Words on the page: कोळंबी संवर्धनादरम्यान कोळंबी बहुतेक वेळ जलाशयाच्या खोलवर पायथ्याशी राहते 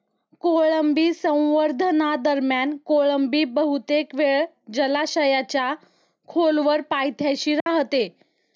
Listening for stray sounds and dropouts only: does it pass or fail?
fail